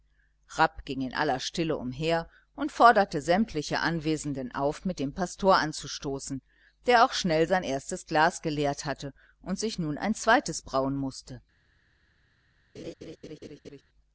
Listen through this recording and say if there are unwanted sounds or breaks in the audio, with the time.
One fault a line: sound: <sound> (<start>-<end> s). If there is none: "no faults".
sound: laugh (12.8-13.8 s)